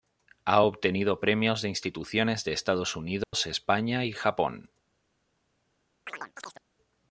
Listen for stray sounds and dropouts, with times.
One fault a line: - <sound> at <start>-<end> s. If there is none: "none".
- dropout at 3.2-3.3 s
- chirp at 6.1-6.6 s